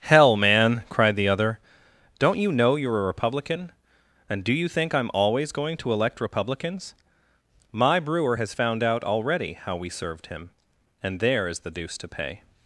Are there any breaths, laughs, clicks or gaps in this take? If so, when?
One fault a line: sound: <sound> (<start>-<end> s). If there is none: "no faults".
no faults